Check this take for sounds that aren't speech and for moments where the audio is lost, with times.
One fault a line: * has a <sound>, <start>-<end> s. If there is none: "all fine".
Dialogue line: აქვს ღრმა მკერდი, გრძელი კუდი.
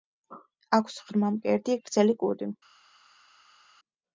all fine